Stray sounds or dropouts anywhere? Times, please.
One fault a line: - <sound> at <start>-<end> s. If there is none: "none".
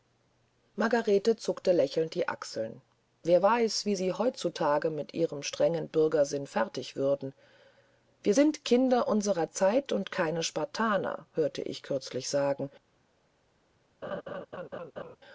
- laugh at 14.0-15.2 s